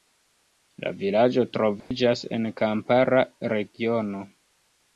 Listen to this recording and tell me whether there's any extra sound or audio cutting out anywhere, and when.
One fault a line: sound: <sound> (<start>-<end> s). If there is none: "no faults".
sound: dropout (1.8-1.9 s)